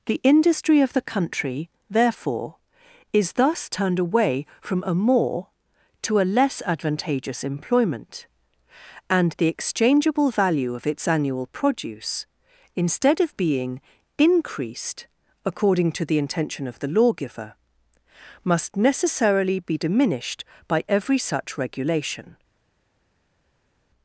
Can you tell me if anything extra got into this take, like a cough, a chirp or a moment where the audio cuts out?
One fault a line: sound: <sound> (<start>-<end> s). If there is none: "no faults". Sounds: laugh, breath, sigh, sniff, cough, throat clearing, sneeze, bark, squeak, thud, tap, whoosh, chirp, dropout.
no faults